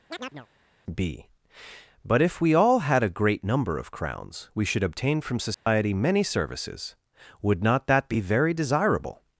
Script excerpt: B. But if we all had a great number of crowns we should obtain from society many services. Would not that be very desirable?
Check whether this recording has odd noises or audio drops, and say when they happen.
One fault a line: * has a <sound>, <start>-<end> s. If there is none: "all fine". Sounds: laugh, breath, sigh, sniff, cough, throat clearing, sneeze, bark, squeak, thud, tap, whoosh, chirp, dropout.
* has a chirp, 0.1-0.5 s
* has a dropout, 5.5-5.7 s